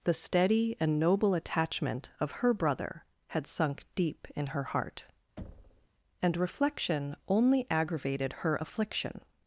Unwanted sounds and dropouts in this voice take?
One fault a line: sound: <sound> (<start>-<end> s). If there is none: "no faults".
sound: thud (5.4-5.9 s)